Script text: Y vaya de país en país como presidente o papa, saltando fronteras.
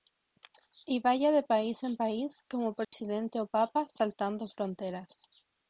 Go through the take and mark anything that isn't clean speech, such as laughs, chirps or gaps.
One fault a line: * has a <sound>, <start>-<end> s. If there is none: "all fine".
* has a dropout, 2.8-2.9 s